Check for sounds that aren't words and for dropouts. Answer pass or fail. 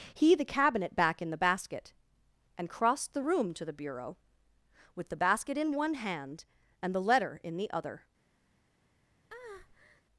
fail